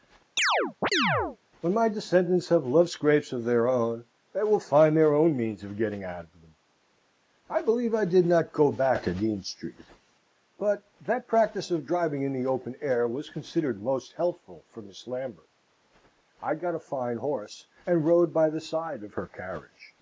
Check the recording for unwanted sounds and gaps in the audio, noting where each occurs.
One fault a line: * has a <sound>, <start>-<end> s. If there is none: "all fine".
* has a chirp, 0.4-1.4 s